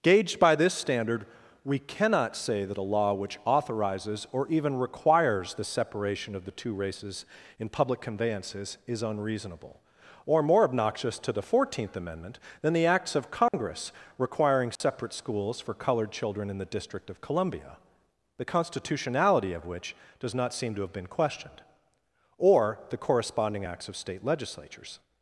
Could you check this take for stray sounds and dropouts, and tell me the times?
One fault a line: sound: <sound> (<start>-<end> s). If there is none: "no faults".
sound: dropout (13.5-13.5 s)
sound: dropout (14.8-14.8 s)